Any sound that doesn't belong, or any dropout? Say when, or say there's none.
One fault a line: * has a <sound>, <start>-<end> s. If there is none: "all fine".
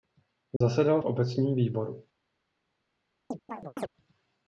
* has a dropout, 0.6-0.6 s
* has a chirp, 3.3-3.9 s